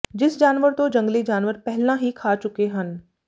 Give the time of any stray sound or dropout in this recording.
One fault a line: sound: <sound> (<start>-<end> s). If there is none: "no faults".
no faults